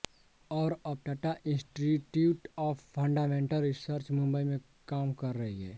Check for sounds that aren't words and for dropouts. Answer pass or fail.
pass